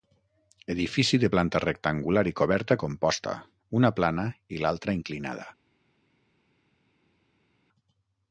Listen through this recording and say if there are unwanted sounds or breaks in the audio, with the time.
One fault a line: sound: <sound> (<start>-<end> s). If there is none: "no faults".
no faults